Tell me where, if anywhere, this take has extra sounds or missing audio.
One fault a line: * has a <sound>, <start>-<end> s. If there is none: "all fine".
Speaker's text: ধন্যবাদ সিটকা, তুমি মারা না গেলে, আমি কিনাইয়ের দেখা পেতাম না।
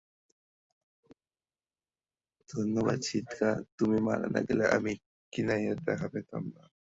all fine